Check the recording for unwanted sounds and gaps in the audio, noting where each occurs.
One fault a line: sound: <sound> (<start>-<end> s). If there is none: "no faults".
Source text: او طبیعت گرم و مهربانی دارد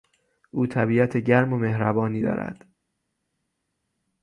no faults